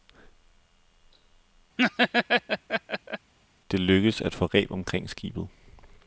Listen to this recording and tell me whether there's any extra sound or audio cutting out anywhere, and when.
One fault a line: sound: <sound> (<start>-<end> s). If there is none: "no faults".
sound: laugh (1.8-3.3 s)